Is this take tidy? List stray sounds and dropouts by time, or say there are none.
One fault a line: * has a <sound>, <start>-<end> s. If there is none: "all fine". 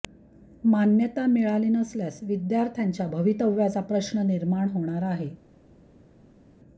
all fine